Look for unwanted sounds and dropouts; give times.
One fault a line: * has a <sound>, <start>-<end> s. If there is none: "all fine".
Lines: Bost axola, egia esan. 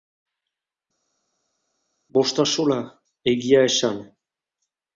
all fine